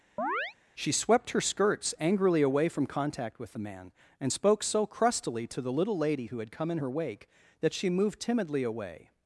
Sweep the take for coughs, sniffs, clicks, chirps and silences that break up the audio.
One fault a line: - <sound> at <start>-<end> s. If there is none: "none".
- chirp at 0.2-0.5 s